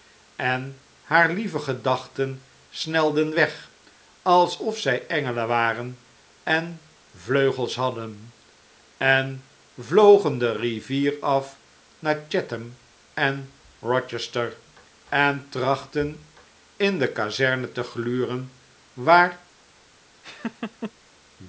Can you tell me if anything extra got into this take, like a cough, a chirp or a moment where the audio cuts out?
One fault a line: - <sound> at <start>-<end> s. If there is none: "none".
- laugh at 20.2-20.9 s